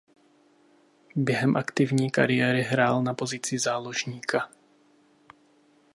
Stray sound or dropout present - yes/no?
no